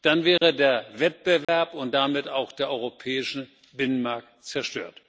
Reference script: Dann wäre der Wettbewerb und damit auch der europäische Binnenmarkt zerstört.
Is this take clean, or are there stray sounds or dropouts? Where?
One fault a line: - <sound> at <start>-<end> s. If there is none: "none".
- dropout at 0.4-0.4 s
- dropout at 1.4-1.5 s